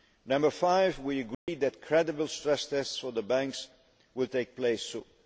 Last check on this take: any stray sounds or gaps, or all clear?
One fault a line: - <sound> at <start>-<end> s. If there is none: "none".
- dropout at 1.3-1.5 s